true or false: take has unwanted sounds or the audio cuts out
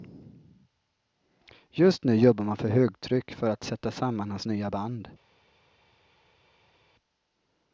false